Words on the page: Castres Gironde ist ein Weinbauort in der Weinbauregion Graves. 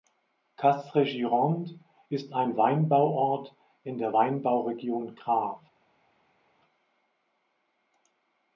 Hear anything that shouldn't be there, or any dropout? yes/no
no